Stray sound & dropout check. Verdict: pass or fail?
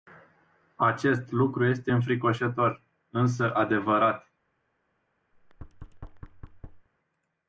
fail